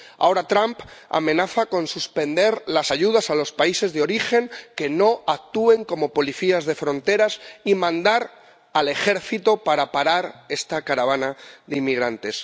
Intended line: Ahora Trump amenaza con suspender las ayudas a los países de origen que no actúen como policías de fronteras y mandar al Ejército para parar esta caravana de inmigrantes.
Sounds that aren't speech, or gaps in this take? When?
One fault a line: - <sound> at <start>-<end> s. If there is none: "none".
none